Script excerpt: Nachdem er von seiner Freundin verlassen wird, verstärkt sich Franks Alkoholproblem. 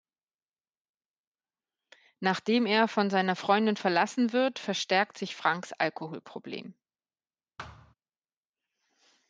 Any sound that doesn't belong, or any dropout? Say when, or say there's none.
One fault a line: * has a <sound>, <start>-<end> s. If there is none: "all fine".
* has a thud, 7.6-7.9 s